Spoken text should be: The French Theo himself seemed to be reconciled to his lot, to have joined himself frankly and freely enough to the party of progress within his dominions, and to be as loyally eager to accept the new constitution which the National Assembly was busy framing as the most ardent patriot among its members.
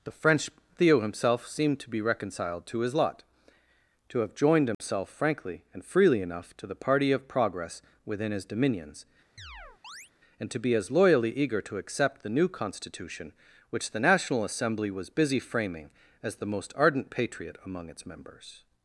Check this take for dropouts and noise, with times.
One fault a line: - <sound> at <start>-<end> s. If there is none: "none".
- dropout at 4.7-4.8 s
- chirp at 9.4-10.1 s